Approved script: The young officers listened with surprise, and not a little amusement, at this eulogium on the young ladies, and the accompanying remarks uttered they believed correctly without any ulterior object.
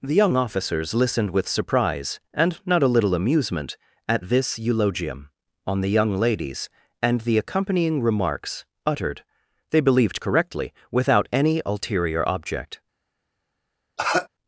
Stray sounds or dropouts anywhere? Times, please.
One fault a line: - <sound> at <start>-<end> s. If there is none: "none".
- cough at 14.0-14.3 s